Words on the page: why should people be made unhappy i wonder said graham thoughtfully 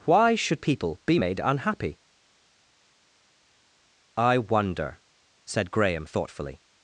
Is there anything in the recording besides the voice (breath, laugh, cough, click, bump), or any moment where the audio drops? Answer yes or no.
no